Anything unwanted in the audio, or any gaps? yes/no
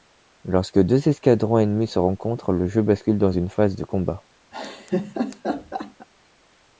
yes